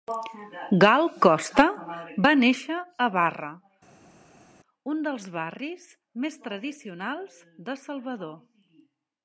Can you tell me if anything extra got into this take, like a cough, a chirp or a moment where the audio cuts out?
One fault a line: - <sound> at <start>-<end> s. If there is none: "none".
none